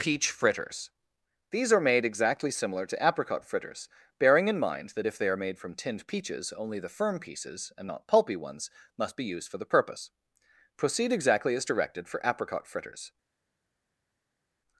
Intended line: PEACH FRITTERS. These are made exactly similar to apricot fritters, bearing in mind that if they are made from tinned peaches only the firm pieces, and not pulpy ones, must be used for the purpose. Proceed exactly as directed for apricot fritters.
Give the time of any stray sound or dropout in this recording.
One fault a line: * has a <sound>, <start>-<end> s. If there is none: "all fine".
all fine